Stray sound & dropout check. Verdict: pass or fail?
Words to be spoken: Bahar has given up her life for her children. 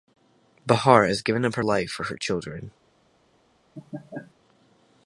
fail